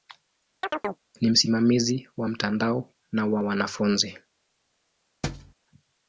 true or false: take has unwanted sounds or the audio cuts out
true